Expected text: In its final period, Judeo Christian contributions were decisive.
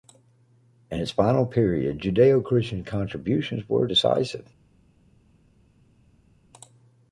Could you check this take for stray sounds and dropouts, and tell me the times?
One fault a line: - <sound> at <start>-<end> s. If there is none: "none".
none